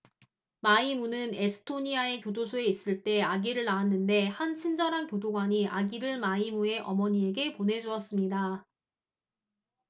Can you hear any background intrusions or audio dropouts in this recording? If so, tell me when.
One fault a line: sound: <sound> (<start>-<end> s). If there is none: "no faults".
no faults